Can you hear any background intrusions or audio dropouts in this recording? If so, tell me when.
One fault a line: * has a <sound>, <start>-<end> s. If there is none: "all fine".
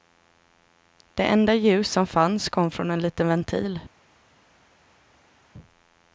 all fine